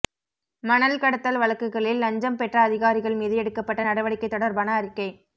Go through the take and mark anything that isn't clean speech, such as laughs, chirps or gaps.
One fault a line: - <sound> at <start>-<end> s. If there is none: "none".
none